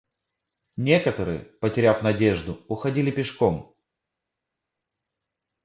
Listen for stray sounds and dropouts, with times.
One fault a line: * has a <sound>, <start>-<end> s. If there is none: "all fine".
all fine